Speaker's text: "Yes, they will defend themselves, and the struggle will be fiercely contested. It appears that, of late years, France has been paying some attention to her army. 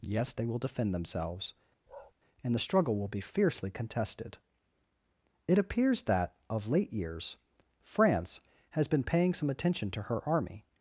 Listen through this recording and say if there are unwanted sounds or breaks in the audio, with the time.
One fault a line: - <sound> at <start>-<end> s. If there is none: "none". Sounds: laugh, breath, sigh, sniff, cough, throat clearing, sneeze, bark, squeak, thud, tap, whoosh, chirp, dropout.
- bark at 1.9-2.1 s